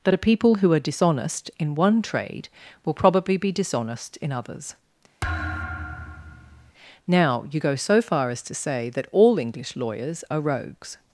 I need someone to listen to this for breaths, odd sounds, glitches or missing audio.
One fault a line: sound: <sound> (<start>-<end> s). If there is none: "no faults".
sound: thud (5.2-6.7 s)